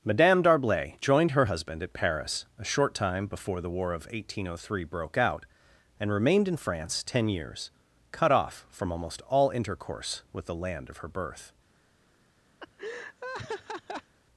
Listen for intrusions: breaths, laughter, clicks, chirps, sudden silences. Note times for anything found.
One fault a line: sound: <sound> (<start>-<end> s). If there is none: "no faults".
sound: laugh (12.6-14.1 s)